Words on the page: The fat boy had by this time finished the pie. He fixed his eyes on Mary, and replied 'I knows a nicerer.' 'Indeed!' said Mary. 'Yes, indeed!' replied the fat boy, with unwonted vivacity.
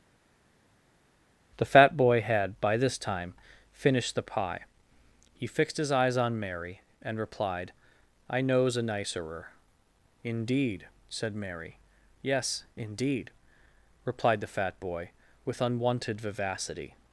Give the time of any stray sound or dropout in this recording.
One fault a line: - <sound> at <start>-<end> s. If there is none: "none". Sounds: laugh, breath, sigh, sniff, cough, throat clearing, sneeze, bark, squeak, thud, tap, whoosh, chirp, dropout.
none